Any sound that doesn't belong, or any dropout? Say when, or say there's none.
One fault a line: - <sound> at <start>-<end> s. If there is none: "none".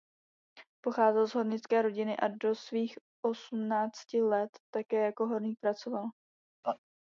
- laugh at 6.6-6.8 s